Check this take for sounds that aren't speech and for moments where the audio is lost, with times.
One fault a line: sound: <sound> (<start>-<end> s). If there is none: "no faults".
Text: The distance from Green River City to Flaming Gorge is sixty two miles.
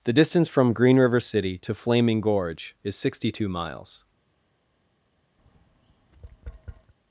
sound: tap (5.4-6.9 s)